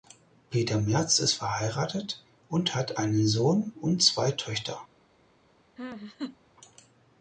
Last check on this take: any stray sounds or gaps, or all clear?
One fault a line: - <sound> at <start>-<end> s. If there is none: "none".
- laugh at 5.8-6.4 s